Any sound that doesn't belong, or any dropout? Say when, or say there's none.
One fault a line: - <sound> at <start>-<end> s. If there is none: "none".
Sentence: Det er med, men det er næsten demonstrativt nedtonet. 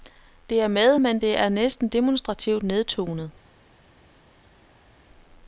none